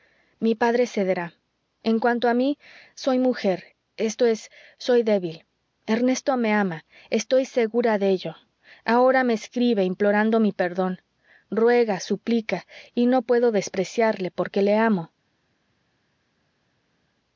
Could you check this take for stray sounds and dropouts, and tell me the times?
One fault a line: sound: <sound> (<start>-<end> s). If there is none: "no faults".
no faults